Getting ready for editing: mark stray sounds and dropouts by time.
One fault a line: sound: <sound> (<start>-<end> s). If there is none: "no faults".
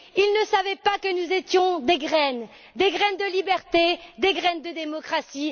no faults